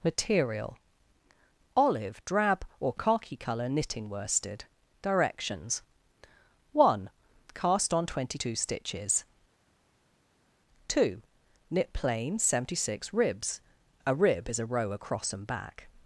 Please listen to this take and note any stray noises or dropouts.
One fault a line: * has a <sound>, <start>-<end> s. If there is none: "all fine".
all fine